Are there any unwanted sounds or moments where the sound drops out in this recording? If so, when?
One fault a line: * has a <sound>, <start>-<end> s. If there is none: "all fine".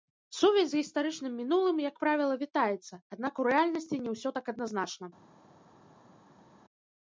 all fine